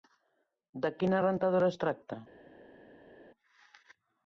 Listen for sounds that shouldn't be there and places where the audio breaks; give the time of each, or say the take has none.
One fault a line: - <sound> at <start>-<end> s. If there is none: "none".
none